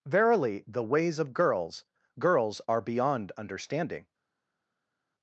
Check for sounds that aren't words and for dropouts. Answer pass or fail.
pass